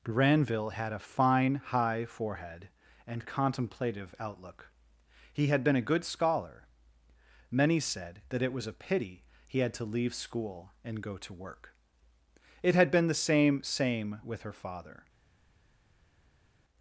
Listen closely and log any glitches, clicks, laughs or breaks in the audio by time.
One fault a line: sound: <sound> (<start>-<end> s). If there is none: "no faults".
no faults